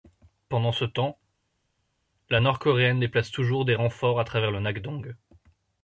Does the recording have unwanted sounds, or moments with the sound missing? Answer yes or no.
no